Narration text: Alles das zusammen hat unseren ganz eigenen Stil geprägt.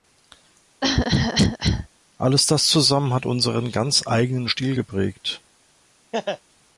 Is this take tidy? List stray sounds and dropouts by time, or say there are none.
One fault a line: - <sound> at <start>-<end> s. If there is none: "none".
- cough at 0.8-1.9 s
- laugh at 6.1-6.4 s